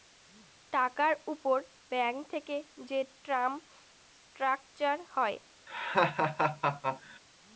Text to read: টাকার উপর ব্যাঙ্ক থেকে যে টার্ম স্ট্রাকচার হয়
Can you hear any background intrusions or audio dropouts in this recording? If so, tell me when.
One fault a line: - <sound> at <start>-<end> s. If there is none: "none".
- laugh at 5.7-7.2 s